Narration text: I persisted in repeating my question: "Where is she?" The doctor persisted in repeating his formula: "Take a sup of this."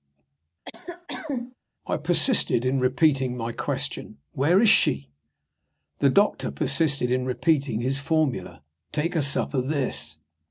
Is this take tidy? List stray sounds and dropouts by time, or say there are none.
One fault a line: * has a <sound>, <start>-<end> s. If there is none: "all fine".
* has a cough, 0.7-1.6 s